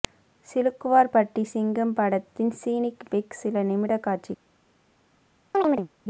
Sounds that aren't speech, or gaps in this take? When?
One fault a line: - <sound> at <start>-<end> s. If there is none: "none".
- chirp at 5.5-5.9 s